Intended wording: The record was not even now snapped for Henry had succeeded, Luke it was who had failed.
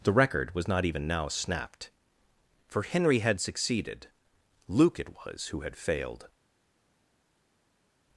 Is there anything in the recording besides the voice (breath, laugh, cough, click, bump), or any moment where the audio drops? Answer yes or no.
no